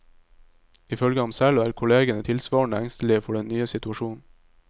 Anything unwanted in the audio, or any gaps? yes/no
no